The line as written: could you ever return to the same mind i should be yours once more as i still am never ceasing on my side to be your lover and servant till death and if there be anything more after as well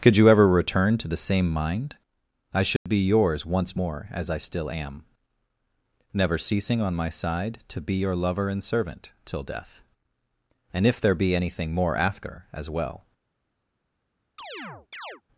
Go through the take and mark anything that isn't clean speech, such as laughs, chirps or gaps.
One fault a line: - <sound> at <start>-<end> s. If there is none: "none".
- dropout at 2.8-2.9 s
- chirp at 14.4-15.2 s